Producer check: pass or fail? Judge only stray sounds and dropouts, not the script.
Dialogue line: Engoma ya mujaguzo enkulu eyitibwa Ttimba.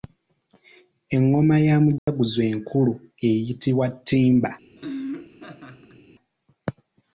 fail